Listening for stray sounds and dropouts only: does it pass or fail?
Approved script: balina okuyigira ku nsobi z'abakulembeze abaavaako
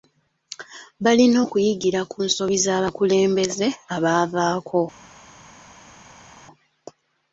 pass